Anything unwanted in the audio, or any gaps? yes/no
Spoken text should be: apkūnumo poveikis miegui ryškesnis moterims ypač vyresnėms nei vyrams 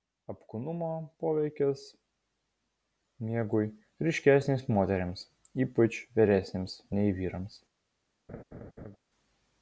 yes